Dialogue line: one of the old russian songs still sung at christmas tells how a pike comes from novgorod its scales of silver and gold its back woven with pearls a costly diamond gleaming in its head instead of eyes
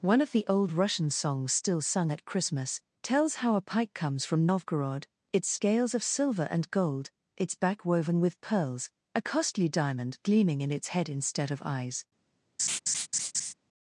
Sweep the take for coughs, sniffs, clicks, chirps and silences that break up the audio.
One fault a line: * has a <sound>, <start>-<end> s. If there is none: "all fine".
* has a laugh, 12.6-13.5 s